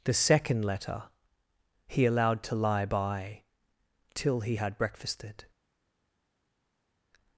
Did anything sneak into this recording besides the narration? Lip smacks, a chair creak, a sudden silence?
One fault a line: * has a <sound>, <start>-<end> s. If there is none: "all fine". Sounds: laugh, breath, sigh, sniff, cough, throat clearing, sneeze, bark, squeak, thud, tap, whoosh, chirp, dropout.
all fine